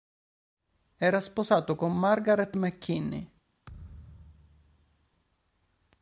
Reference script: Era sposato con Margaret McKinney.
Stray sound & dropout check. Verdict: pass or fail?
fail